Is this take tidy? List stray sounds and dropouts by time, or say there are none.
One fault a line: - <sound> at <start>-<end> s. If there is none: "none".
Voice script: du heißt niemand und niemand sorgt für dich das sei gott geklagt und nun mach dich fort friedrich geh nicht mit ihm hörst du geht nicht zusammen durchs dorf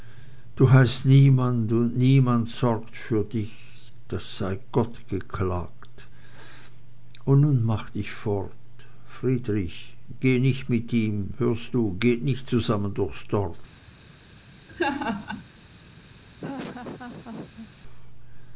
- laugh at 14.7-15.4 s
- laugh at 16.4-17.7 s